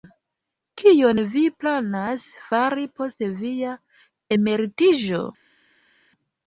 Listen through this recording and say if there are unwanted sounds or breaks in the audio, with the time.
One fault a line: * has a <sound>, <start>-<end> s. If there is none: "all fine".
all fine